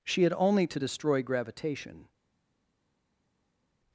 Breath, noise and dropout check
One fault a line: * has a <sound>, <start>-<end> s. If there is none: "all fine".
all fine